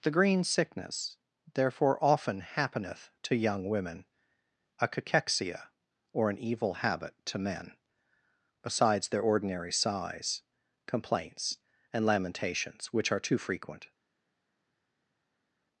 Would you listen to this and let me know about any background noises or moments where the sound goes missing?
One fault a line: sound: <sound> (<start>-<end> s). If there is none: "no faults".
no faults